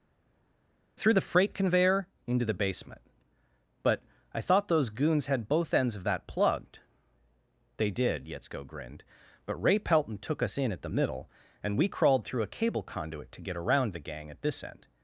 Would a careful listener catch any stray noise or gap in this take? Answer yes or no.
no